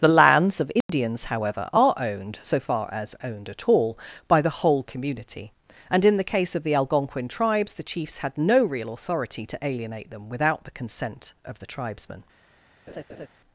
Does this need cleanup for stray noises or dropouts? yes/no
yes